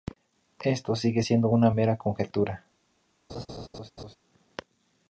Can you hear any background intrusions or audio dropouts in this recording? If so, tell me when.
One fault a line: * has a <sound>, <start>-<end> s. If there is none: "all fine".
* has a laugh, 3.3-4.2 s